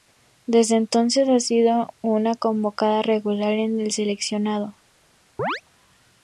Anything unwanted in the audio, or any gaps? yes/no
yes